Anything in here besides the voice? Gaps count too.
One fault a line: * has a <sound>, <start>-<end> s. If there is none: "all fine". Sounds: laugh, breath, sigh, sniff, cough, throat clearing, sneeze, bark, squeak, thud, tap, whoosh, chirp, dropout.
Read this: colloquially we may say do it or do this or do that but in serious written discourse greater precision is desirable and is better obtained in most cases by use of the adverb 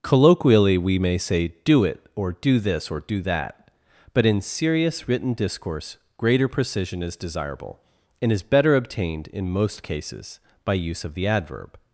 all fine